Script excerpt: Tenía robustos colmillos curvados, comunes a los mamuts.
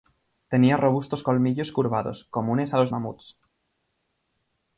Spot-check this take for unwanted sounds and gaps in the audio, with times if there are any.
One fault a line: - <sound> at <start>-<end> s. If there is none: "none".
none